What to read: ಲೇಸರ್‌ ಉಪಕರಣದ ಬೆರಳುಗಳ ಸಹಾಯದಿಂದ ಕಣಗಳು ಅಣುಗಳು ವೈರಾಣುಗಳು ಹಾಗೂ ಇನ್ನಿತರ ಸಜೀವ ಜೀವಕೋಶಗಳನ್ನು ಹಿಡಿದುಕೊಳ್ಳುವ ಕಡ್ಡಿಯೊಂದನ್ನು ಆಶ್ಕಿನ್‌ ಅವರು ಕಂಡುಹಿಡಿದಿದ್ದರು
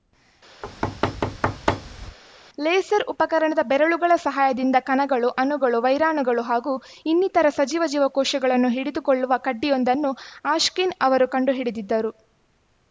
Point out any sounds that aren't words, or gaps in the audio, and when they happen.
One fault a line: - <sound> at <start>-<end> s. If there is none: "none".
- thud at 0.6-2.2 s